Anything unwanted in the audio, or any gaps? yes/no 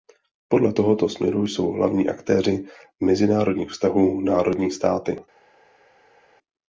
no